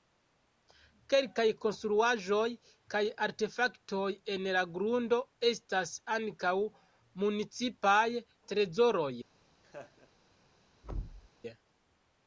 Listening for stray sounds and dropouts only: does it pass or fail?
fail